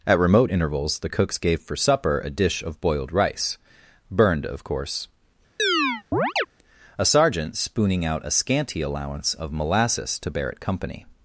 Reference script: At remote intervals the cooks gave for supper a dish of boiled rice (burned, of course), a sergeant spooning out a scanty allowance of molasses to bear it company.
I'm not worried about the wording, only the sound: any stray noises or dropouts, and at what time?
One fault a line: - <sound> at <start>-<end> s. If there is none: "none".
- chirp at 5.6-6.5 s